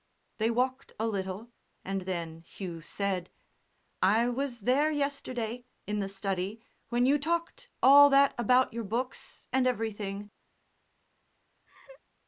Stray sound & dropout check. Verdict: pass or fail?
fail